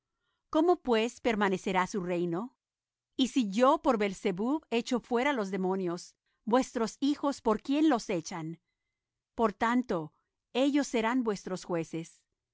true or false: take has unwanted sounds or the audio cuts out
false